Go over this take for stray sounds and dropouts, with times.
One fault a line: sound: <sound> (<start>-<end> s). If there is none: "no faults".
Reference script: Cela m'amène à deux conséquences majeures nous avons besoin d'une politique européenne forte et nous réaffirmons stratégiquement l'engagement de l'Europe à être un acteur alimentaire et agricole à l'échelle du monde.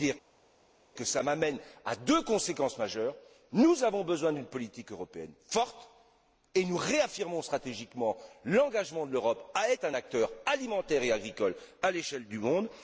no faults